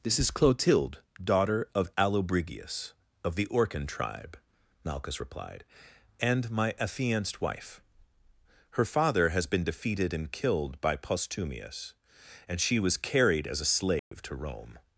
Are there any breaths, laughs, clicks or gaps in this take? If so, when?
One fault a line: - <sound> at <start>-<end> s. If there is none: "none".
- dropout at 14.0-14.1 s